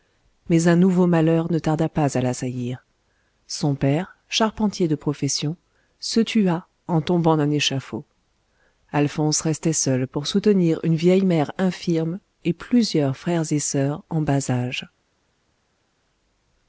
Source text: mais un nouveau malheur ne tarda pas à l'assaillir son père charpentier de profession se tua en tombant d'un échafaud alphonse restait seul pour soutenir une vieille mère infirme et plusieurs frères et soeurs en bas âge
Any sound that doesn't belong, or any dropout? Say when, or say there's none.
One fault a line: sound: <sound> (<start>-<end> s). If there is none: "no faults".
no faults